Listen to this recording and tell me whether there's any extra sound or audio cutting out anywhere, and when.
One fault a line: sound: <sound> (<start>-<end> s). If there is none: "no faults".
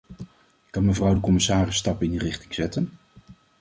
no faults